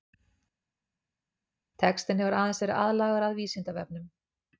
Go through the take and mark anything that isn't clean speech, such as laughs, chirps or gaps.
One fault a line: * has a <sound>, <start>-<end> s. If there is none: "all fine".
all fine